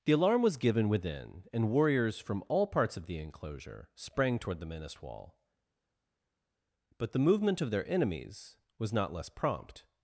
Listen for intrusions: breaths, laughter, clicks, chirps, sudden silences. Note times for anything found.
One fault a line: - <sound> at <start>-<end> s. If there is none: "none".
none